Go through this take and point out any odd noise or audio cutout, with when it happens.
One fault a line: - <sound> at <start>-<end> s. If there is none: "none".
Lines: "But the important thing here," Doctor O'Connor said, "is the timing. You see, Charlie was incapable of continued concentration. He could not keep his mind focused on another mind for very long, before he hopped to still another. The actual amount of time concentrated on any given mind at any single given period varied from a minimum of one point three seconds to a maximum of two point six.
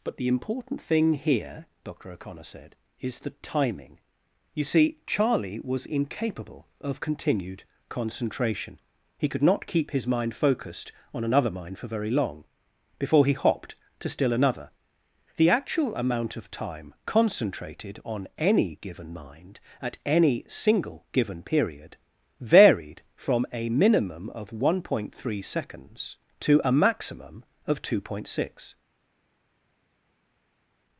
none